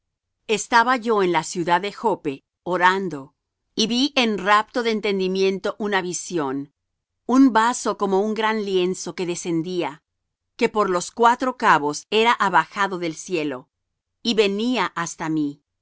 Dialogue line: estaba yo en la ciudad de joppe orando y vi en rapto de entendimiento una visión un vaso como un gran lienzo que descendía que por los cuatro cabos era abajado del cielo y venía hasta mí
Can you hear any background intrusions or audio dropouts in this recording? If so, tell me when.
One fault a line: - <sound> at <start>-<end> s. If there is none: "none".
none